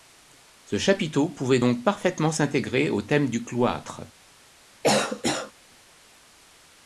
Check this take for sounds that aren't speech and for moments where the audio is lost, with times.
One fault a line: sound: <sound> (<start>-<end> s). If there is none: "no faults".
sound: cough (4.8-5.5 s)